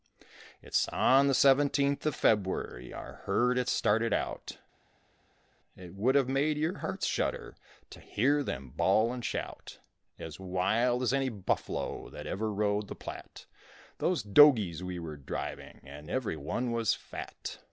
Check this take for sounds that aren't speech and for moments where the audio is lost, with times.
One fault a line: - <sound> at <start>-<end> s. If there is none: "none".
none